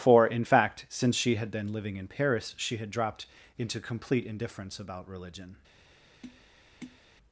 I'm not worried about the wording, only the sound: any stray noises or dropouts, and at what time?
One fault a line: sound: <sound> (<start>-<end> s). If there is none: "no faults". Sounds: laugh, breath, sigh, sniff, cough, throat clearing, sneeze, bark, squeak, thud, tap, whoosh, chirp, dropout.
sound: tap (6.2-7.0 s)